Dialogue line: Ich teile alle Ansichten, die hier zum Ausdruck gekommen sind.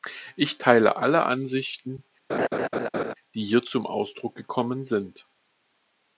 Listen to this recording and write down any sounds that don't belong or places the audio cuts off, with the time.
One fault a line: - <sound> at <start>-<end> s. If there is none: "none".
- laugh at 2.3-3.1 s